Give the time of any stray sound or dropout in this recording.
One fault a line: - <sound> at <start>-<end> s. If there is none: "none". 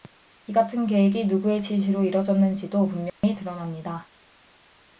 - dropout at 3.1-3.2 s